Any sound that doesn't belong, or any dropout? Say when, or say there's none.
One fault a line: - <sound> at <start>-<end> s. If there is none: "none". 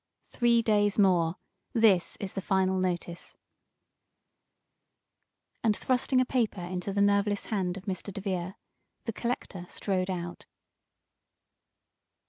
none